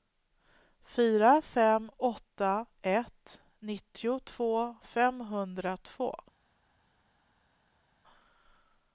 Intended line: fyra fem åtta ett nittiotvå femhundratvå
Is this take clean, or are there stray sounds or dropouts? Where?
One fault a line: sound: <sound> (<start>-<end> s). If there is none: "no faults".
no faults